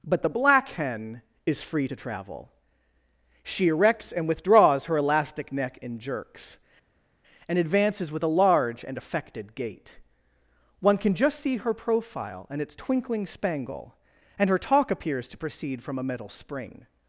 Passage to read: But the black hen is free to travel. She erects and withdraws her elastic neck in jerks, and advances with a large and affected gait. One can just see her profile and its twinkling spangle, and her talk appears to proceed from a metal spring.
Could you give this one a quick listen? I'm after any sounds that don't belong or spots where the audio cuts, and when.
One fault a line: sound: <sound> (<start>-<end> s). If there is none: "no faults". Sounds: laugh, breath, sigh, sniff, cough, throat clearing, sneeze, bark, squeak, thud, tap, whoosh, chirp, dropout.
no faults